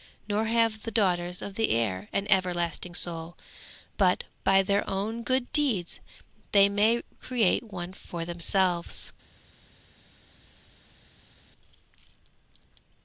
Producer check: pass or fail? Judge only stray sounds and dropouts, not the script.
pass